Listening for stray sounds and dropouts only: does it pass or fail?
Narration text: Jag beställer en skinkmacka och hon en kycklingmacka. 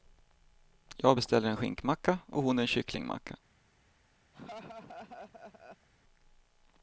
fail